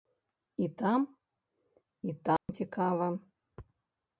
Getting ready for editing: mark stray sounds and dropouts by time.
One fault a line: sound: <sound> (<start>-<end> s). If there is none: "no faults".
sound: dropout (2.4-2.5 s)